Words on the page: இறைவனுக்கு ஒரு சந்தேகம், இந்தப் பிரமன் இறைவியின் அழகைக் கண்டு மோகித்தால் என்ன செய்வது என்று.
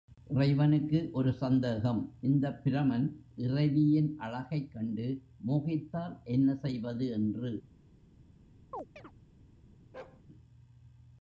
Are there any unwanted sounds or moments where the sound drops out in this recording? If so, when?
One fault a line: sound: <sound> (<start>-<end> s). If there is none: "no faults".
sound: chirp (8.7-9.1 s)
sound: bark (9.9-10.2 s)